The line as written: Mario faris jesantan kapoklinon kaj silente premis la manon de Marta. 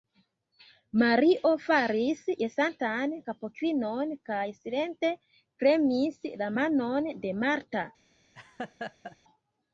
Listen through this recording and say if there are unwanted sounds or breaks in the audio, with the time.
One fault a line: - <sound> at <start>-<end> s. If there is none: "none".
- laugh at 8.3-9.2 s